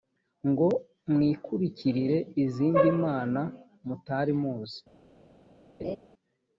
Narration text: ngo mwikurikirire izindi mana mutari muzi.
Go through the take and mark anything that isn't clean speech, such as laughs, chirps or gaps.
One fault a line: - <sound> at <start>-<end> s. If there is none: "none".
- laugh at 5.8-6.0 s